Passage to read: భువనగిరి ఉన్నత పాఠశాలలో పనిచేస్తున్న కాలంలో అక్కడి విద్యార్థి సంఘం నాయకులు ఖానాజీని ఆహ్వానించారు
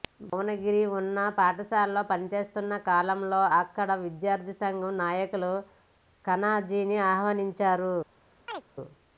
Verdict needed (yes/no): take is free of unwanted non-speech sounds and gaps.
no